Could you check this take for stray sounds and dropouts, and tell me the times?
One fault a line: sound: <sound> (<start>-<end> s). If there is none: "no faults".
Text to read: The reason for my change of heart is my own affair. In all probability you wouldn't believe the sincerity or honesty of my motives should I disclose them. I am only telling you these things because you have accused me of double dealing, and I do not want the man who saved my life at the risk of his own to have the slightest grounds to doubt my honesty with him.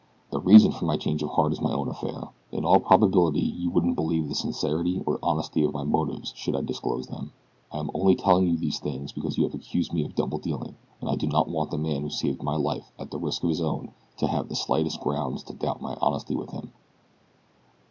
no faults